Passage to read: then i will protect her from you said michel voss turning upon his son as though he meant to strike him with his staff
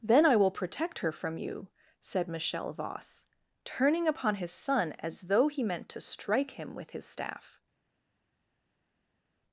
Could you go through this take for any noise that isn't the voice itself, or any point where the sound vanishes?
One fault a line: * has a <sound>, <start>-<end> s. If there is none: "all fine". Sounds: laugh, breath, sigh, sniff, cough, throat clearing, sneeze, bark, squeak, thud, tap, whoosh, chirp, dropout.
all fine